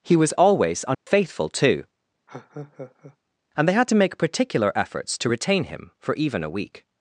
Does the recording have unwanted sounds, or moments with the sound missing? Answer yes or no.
yes